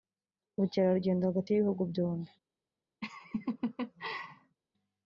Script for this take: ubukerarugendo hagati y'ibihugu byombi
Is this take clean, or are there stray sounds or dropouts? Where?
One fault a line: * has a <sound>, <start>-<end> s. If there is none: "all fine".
* has a laugh, 3.0-4.6 s